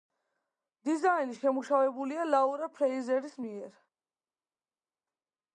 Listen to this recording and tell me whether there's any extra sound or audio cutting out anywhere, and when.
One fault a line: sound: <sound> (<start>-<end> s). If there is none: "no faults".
no faults